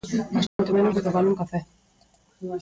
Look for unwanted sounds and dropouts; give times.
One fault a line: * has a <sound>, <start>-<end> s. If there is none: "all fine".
* has a dropout, 0.5-0.6 s